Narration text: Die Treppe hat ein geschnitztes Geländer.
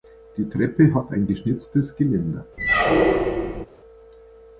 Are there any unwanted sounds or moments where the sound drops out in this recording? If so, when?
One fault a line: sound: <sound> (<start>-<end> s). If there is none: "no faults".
sound: squeak (2.6-3.7 s)